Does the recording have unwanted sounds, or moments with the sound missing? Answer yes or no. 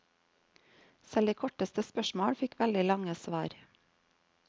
no